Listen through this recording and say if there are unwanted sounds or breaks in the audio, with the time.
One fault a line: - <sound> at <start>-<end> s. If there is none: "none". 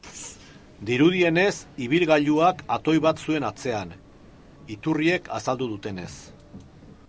none